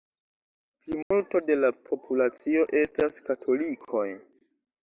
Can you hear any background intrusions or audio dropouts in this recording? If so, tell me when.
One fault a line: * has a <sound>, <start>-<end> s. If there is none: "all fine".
* has a dropout, 1.0-1.1 s